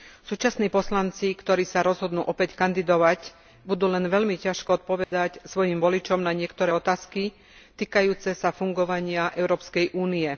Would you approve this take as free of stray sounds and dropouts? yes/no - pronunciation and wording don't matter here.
no